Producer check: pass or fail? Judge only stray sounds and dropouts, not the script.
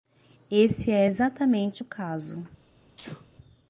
fail